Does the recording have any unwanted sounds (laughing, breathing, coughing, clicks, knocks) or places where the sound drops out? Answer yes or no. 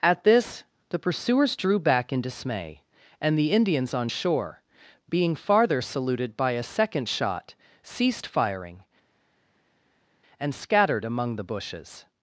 no